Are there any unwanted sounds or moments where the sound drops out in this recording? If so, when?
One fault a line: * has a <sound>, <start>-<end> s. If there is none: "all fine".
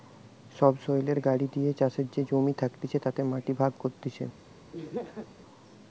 * has a laugh, 4.7-5.3 s